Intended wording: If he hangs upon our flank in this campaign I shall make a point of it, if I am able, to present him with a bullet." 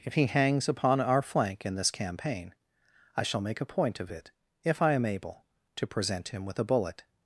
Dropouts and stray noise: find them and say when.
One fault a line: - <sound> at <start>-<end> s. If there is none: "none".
none